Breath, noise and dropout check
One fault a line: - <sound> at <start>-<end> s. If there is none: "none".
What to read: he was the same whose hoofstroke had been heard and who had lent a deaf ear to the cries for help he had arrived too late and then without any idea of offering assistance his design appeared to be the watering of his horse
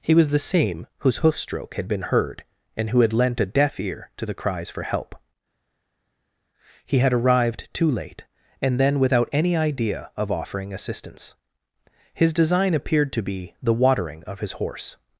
none